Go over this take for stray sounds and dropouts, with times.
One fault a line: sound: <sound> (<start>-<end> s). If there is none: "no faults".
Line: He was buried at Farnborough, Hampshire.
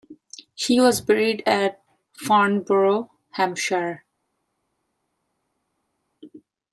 no faults